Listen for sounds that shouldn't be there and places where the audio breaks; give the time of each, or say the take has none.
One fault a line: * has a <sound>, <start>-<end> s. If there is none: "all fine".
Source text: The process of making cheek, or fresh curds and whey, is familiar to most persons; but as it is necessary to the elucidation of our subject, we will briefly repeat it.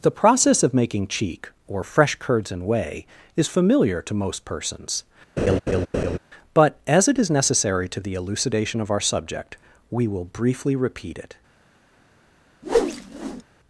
* has a laugh, 5.4-6.2 s
* has a whoosh, 12.6-13.4 s